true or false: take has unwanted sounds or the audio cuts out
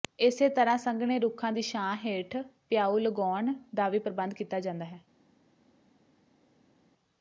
false